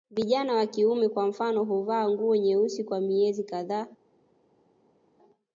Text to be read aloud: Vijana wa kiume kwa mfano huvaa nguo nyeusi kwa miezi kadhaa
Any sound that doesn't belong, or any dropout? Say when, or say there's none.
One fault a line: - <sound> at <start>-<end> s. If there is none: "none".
none